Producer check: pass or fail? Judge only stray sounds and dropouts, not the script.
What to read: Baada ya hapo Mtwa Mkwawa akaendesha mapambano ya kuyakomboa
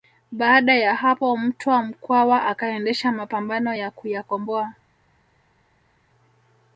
pass